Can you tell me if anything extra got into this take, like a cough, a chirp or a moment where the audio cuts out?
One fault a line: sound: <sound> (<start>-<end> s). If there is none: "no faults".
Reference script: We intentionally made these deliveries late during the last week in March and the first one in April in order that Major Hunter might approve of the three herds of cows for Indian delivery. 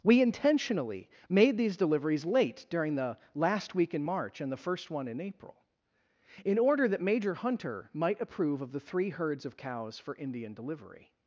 no faults